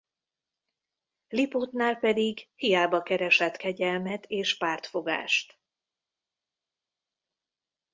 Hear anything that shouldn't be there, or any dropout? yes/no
no